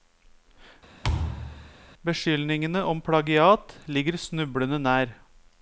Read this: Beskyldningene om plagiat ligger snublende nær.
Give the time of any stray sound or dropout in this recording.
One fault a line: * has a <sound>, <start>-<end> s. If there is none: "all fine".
* has a thud, 1.0-1.7 s